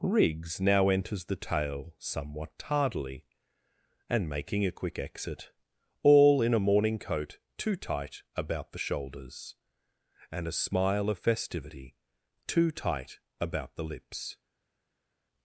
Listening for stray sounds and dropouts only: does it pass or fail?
pass